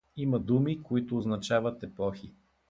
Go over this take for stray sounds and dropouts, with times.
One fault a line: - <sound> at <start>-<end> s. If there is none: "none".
none